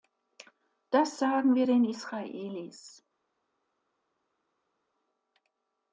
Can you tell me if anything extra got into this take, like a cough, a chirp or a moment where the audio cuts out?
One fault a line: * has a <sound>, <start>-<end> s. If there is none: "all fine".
all fine